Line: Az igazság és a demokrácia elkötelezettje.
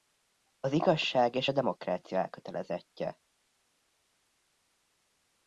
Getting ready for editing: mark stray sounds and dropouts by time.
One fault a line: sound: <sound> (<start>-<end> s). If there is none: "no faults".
no faults